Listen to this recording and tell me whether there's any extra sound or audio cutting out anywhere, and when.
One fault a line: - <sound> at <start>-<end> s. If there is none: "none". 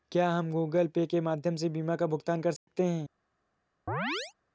- dropout at 2.6-2.7 s
- chirp at 3.9-4.3 s